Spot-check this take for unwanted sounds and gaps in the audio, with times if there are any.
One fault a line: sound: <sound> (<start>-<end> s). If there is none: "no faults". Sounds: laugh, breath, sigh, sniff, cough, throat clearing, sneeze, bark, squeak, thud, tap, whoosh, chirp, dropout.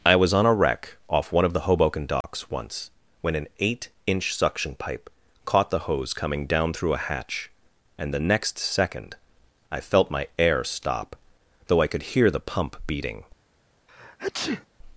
sound: dropout (2.2-2.2 s)
sound: sneeze (13.9-14.7 s)